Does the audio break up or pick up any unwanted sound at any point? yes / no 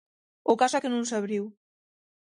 no